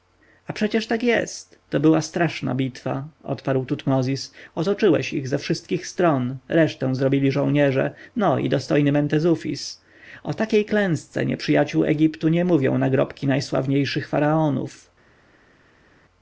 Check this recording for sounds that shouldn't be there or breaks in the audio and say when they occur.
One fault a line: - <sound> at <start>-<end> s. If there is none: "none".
none